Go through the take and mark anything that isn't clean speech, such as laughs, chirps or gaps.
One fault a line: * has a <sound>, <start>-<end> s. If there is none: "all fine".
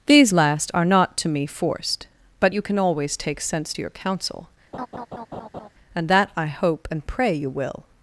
* has a laugh, 4.7-5.7 s